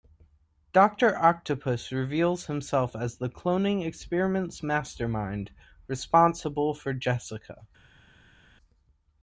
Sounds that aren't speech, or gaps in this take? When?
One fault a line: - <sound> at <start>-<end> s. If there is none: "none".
none